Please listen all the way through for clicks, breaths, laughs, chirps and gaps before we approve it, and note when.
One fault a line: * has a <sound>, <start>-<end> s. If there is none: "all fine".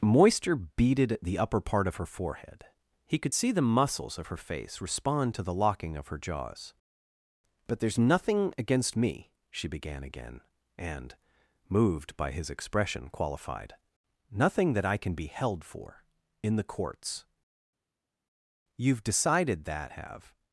all fine